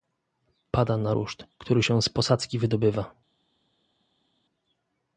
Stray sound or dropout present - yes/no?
no